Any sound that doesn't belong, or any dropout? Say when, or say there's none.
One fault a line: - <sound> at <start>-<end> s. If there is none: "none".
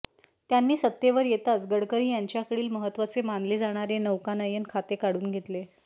none